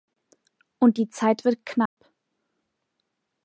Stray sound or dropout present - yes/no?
yes